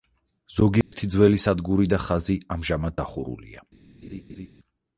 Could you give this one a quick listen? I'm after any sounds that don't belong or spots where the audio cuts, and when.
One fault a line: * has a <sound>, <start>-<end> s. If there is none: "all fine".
* has a dropout, 0.8-0.9 s
* has a laugh, 4.0-4.5 s